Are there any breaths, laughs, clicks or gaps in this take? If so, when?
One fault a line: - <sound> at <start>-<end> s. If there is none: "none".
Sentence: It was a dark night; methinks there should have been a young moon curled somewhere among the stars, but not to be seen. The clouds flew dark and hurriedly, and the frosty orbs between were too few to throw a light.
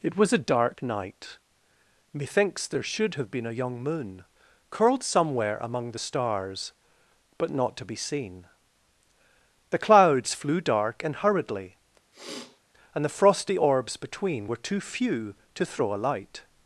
- sniff at 12.1-12.6 s